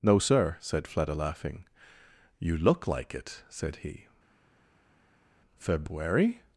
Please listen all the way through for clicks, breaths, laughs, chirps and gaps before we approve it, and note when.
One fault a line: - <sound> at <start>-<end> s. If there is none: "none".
none